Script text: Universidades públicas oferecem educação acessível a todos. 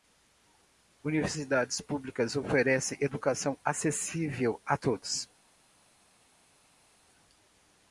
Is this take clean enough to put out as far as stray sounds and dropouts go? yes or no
yes